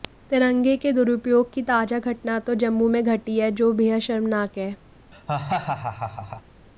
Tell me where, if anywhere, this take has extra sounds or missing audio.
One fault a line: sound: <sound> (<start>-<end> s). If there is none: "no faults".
sound: laugh (5.1-6.4 s)